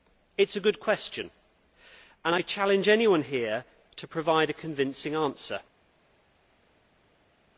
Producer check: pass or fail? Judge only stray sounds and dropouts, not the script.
pass